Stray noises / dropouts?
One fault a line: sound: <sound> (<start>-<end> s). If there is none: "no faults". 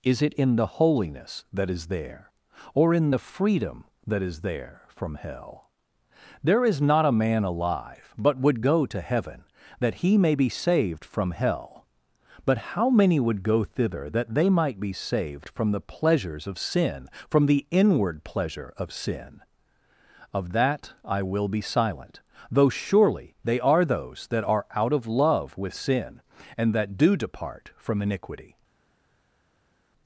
no faults